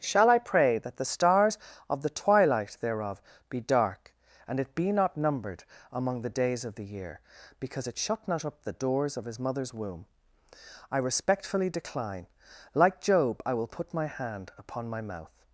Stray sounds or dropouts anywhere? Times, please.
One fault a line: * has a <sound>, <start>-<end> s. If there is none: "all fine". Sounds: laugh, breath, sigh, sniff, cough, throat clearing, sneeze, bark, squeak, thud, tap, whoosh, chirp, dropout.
all fine